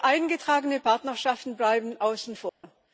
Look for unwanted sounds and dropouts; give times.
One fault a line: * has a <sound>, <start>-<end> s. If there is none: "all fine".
* has a dropout, 2.5-2.6 s